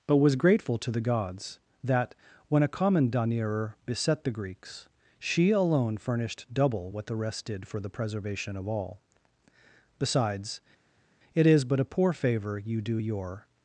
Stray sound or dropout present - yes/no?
no